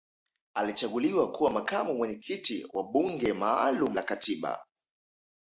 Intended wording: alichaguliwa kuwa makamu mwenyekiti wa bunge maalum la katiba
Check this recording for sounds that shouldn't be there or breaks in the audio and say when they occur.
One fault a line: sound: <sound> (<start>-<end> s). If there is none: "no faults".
no faults